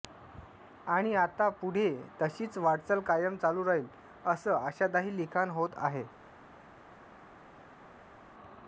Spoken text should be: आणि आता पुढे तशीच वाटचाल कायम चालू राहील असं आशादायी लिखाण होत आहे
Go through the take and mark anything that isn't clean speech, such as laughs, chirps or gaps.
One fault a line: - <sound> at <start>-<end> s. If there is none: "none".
none